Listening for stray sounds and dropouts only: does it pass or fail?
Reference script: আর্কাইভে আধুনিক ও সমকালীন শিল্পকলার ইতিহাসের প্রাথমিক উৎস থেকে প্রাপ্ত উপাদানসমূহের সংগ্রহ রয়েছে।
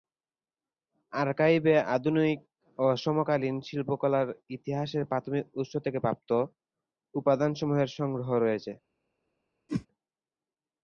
fail